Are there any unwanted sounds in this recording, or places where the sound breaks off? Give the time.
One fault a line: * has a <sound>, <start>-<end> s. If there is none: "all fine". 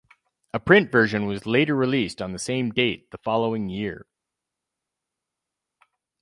all fine